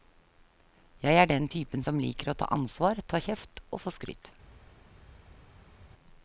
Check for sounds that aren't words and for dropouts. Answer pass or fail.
pass